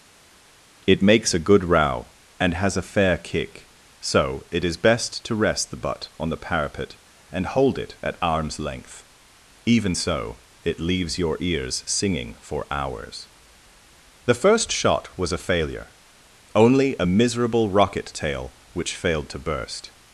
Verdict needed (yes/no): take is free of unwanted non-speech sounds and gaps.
yes